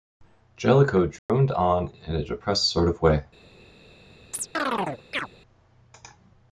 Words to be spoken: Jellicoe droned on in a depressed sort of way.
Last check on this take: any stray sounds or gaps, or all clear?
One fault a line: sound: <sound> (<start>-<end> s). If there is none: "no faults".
sound: dropout (1.2-1.3 s)
sound: chirp (4.3-5.3 s)